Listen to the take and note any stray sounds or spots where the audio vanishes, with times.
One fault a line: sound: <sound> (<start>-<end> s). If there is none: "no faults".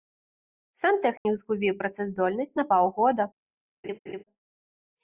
sound: dropout (1.2-1.3 s)
sound: laugh (3.8-4.2 s)